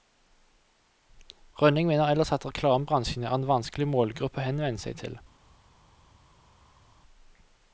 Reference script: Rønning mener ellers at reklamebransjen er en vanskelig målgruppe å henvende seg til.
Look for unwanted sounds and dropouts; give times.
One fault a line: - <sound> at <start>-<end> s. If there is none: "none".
none